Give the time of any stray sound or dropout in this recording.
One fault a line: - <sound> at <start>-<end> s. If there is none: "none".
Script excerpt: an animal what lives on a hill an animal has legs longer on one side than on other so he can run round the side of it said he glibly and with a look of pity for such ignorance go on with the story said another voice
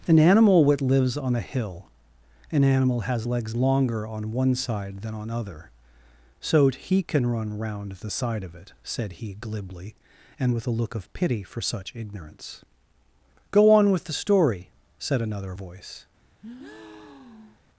- breath at 16.4-17.6 s